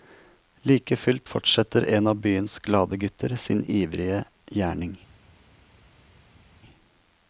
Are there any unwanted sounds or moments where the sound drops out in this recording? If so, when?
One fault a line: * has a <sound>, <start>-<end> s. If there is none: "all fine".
all fine